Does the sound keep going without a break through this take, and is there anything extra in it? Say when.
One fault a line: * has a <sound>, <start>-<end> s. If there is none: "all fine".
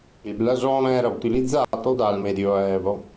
* has a dropout, 1.6-1.7 s